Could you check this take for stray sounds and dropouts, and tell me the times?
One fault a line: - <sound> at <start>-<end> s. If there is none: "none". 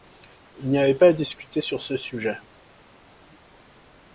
none